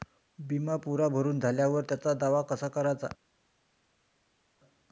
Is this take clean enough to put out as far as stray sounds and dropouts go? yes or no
yes